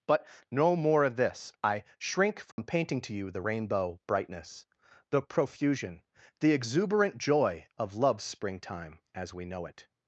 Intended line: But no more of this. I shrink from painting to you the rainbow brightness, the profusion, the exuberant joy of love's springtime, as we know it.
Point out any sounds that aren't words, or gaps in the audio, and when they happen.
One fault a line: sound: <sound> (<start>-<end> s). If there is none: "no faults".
sound: dropout (2.5-2.6 s)